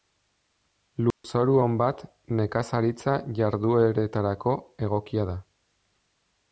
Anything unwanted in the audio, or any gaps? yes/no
yes